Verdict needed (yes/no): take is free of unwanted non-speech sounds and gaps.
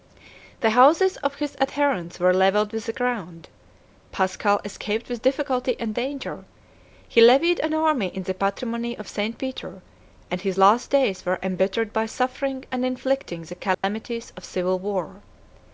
no